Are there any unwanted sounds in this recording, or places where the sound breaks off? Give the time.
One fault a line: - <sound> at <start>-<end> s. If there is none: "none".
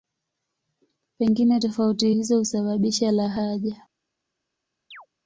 - chirp at 4.9-5.1 s